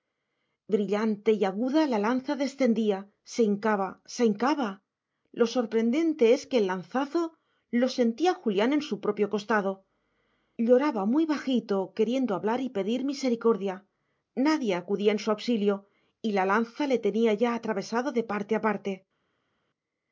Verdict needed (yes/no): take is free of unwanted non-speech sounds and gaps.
yes